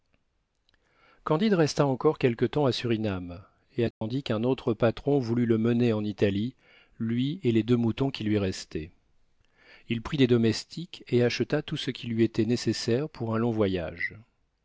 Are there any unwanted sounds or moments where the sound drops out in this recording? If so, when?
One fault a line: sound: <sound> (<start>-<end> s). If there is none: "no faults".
sound: dropout (3.9-4.0 s)